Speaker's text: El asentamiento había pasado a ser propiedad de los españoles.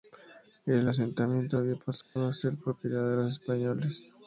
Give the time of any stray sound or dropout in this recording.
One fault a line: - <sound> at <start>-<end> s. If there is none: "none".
- dropout at 2.0-2.2 s